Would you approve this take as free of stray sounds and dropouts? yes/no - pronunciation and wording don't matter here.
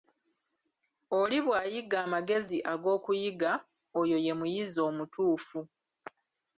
yes